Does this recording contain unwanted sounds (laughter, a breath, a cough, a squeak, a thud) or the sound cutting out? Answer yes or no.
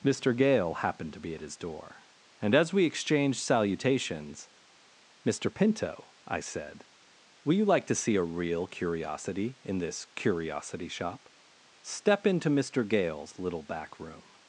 no